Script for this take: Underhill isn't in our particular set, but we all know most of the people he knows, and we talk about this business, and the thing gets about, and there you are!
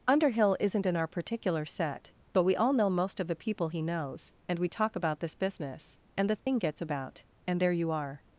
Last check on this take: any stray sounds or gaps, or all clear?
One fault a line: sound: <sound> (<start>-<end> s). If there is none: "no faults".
sound: dropout (6.4-6.5 s)